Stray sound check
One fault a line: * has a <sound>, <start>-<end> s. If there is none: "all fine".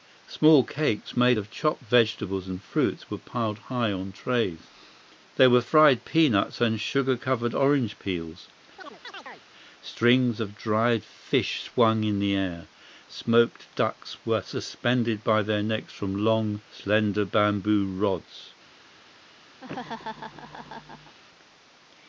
* has a chirp, 8.8-9.5 s
* has a laugh, 19.6-21.2 s